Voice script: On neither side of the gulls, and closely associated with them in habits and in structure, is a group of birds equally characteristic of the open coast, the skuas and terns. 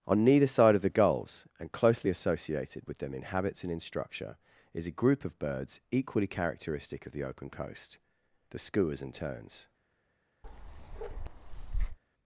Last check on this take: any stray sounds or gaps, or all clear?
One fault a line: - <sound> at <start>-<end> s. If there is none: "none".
- bark at 10.4-12.0 s